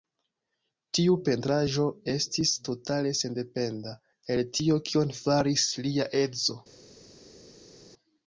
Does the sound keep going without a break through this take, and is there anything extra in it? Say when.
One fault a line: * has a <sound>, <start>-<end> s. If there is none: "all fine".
all fine